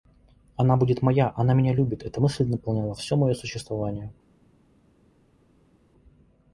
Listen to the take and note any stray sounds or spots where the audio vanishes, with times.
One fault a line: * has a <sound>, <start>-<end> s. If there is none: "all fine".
all fine